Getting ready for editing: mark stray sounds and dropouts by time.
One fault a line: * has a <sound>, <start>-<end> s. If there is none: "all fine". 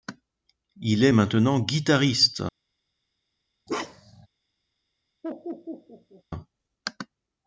* has a bark, 3.7-4.3 s
* has a laugh, 5.2-6.2 s